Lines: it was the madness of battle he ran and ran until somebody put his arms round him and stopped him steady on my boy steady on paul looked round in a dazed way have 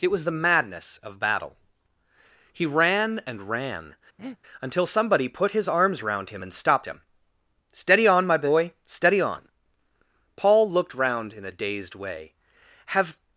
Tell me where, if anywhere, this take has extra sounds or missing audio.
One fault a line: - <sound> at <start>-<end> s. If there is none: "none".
- breath at 4.2-4.4 s